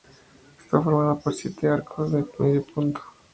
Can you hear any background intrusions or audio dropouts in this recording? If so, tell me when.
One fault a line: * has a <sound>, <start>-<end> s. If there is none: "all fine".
all fine